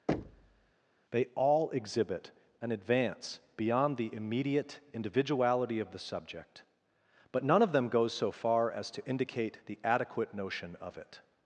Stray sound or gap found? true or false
true